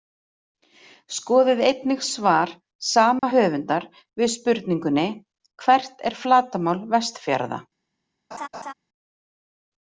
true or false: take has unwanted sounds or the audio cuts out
true